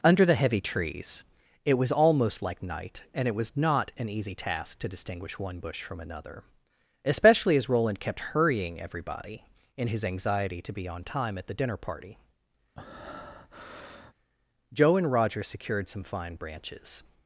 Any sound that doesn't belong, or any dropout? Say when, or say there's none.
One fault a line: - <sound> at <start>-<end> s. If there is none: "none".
- breath at 12.8-14.1 s